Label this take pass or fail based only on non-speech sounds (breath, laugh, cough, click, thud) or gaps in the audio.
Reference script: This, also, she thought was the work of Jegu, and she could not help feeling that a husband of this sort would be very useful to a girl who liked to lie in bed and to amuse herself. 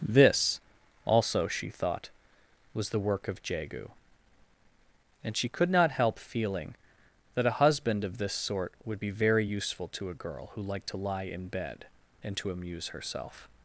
pass